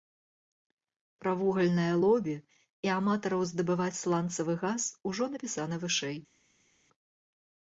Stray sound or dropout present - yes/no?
no